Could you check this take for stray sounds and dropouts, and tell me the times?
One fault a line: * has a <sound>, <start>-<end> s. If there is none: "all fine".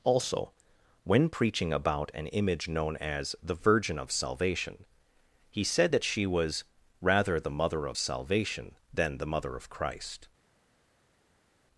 all fine